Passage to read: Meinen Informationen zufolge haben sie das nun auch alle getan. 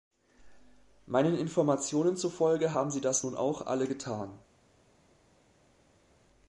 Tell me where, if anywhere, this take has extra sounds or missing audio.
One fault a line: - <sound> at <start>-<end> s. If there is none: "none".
none